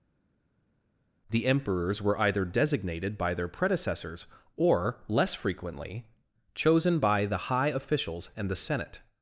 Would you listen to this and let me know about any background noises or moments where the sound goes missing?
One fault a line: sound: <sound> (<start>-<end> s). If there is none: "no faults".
no faults